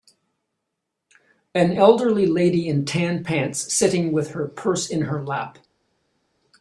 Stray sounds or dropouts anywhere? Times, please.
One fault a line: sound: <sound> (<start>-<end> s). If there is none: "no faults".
no faults